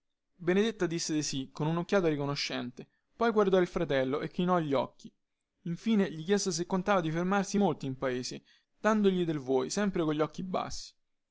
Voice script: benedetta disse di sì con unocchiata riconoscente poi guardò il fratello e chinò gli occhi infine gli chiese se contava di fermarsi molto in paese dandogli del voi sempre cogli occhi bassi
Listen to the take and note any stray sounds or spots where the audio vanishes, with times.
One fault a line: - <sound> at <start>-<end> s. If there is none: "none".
none